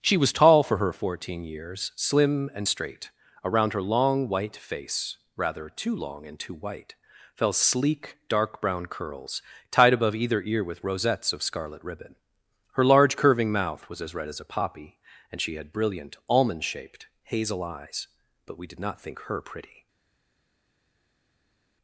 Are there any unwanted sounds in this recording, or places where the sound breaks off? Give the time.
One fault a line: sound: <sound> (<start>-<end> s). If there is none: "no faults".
no faults